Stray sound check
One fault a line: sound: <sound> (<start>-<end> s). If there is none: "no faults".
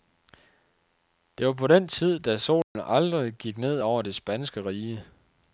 sound: dropout (2.6-2.8 s)